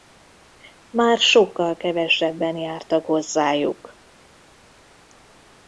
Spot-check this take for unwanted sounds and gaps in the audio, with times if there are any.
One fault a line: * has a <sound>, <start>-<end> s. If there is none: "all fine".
all fine